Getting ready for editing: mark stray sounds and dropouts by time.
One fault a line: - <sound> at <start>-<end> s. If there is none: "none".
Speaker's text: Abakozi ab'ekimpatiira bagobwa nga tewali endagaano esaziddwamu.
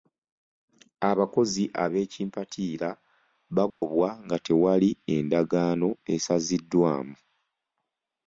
- dropout at 3.7-3.8 s